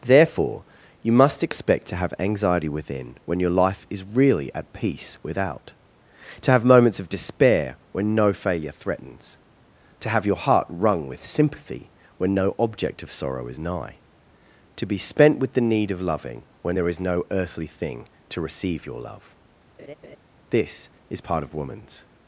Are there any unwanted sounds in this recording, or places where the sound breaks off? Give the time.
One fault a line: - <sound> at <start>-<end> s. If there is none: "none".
- laugh at 19.8-20.2 s